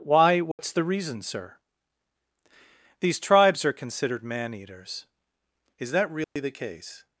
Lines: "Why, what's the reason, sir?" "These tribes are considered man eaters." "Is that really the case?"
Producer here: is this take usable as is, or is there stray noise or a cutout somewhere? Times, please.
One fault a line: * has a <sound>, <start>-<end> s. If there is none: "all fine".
* has a dropout, 0.5-0.6 s
* has a dropout, 6.2-6.4 s